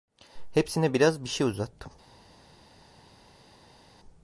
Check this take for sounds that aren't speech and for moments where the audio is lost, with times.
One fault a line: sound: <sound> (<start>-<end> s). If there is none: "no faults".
no faults